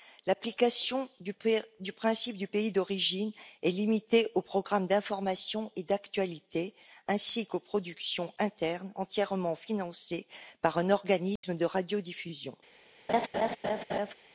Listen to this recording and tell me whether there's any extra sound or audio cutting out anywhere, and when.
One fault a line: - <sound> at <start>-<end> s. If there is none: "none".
- dropout at 11.4-11.4 s
- laugh at 13.1-14.1 s